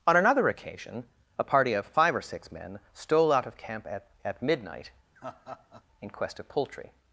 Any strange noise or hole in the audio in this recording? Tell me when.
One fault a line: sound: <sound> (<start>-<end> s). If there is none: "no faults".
sound: laugh (5.2-5.8 s)